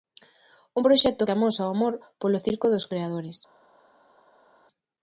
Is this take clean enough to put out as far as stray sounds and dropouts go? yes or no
yes